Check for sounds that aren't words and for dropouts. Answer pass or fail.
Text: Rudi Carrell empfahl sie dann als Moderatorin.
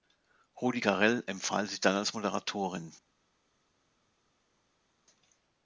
pass